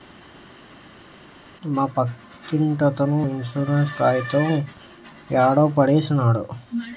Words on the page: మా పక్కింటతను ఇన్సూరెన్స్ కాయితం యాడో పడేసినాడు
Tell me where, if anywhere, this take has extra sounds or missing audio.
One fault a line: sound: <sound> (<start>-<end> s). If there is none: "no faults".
no faults